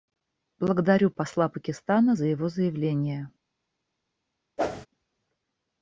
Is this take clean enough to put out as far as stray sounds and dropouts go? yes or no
no